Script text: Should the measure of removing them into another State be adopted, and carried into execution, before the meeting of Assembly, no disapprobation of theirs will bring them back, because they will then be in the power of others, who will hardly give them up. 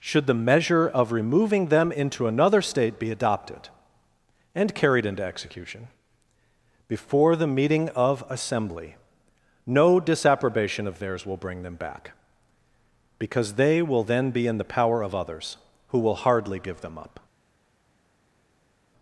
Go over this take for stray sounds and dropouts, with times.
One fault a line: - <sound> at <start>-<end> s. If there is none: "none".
none